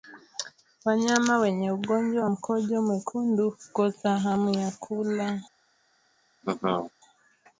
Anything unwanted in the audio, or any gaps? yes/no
yes